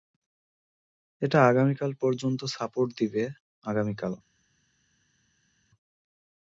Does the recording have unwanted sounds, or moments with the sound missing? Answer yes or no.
no